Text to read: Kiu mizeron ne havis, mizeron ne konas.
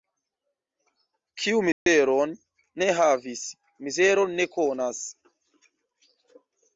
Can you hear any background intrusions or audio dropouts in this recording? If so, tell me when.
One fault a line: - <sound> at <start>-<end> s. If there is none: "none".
- dropout at 1.7-1.9 s